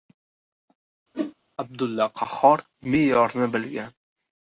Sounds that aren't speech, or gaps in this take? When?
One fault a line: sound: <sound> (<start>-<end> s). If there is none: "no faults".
sound: whoosh (1.1-1.3 s)